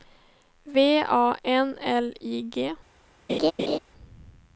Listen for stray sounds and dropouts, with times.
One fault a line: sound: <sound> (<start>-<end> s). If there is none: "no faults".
sound: laugh (3.3-3.8 s)